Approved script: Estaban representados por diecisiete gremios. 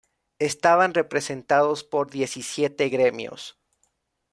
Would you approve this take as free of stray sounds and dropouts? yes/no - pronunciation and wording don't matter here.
yes